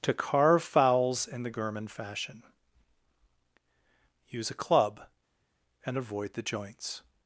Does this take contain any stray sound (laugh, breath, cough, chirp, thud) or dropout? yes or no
no